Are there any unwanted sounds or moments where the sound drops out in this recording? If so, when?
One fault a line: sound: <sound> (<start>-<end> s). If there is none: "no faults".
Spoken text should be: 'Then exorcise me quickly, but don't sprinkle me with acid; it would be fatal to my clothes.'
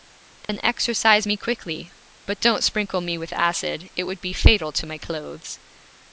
sound: dropout (0.4-0.5 s)